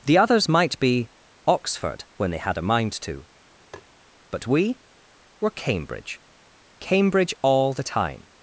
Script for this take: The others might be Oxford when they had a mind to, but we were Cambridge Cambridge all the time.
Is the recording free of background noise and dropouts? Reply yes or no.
no